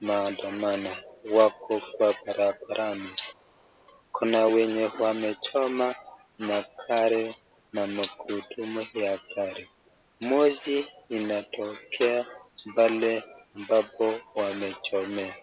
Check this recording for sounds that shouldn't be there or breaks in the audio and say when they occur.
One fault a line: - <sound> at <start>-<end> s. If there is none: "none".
none